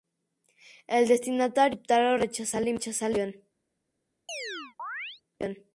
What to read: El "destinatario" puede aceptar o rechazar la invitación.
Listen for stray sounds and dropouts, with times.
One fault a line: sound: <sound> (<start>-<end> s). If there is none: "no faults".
sound: chirp (4.3-5.2 s)